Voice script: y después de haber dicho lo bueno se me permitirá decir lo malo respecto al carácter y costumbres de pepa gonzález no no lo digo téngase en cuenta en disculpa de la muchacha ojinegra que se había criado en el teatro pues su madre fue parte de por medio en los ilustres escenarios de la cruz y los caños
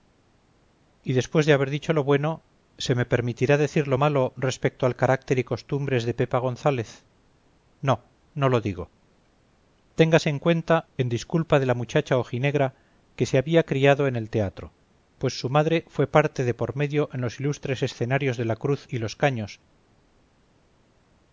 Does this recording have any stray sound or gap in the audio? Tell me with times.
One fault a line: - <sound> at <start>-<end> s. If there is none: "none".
none